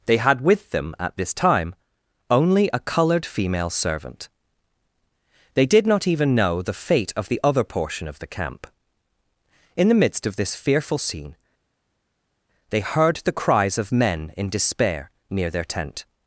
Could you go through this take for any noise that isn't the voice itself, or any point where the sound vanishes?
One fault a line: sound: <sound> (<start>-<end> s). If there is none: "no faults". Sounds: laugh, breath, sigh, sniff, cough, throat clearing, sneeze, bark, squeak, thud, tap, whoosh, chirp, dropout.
no faults